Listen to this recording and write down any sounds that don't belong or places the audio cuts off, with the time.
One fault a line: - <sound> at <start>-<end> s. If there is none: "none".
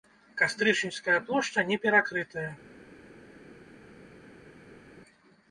none